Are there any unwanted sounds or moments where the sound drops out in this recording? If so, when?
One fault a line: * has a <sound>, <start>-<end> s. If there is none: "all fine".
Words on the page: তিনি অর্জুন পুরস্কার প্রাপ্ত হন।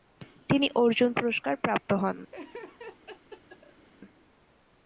* has a laugh, 2.3-3.9 s